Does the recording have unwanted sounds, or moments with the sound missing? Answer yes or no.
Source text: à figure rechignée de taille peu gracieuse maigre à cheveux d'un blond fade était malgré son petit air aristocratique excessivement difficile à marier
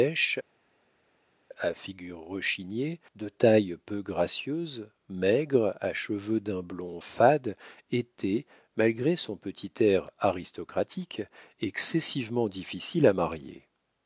no